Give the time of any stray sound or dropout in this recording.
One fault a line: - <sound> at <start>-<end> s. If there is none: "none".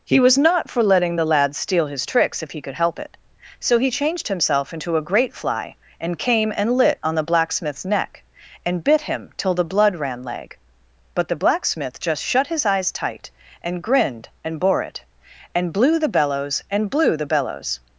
none